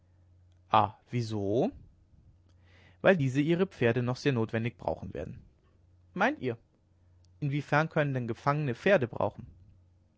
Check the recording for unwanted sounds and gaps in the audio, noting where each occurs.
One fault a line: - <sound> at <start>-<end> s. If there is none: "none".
none